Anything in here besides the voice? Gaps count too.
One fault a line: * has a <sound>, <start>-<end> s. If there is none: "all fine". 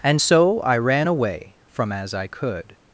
all fine